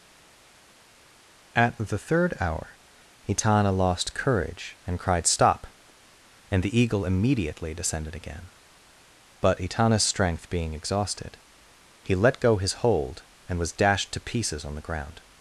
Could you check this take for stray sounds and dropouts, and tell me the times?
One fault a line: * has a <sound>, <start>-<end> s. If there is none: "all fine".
all fine